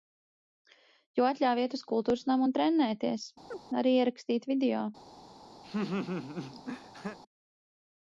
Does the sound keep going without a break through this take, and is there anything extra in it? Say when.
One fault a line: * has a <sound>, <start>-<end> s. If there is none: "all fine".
* has a chirp, 3.5-3.6 s
* has a laugh, 5.6-7.2 s